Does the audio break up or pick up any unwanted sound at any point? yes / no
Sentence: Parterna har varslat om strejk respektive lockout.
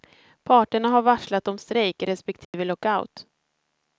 yes